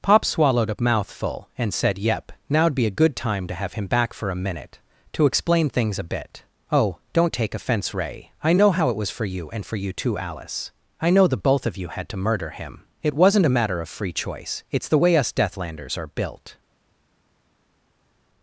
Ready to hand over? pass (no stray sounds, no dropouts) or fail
pass